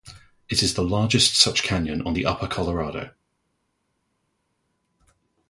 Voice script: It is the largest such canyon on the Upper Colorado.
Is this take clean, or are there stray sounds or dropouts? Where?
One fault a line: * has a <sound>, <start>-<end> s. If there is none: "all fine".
all fine